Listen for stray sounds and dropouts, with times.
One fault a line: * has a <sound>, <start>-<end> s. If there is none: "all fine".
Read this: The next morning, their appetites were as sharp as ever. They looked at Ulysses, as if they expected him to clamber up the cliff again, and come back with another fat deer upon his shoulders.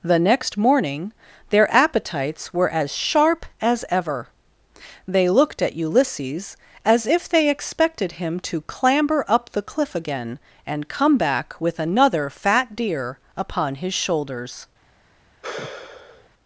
* has a sigh, 15.4-16.3 s